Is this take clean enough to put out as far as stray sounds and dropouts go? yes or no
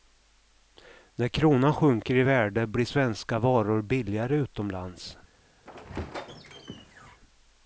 no